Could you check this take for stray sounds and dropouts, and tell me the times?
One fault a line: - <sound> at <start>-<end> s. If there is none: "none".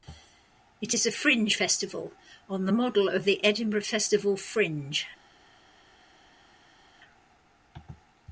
none